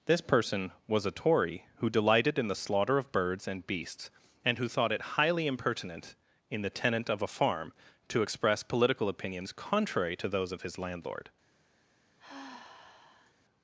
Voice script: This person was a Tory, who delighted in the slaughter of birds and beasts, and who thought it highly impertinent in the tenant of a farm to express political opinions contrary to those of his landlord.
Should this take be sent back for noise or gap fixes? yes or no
yes